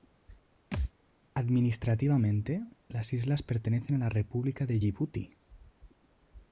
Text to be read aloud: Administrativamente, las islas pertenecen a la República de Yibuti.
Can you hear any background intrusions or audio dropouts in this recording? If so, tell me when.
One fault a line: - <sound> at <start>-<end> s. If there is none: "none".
- thud at 0.7-0.9 s